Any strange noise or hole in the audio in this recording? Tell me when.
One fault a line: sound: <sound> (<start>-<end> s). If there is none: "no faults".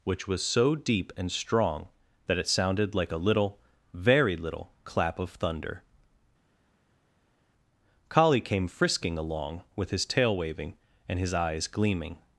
no faults